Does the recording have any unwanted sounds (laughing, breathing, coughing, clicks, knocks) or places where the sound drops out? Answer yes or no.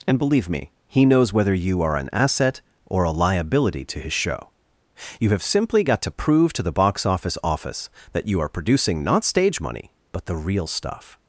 no